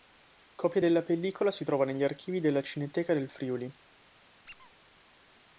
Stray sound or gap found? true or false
true